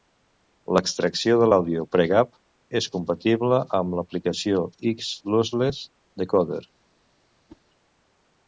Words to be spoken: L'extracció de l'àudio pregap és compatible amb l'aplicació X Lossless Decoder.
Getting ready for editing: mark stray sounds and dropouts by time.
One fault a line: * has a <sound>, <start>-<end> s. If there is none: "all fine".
* has a whoosh, 7.5-7.6 s